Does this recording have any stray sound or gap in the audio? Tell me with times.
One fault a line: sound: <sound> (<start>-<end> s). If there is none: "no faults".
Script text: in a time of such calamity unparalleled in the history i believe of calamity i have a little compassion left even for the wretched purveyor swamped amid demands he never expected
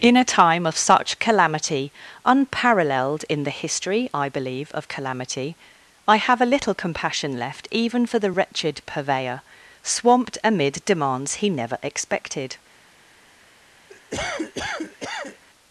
sound: cough (13.9-15.4 s)